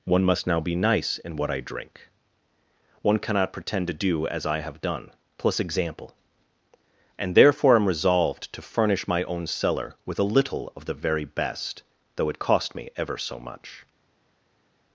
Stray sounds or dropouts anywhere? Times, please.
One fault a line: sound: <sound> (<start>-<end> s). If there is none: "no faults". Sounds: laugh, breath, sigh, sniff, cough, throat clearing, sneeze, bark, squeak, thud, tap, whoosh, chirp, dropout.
no faults